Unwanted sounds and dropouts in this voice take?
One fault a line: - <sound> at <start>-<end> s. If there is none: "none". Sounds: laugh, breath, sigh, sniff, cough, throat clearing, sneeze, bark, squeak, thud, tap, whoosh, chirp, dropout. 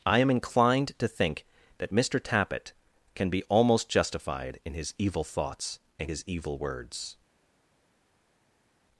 none